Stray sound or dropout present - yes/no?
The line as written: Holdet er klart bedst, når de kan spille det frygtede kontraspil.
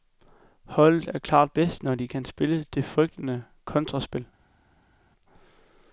no